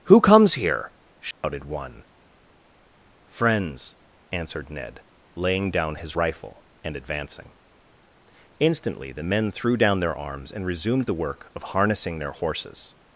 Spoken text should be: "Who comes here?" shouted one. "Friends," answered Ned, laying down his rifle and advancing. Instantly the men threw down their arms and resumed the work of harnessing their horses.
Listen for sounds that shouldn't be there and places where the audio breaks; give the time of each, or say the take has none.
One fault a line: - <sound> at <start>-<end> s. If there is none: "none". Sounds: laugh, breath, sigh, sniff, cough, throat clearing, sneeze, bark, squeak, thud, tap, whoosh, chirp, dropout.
- dropout at 1.3-1.4 s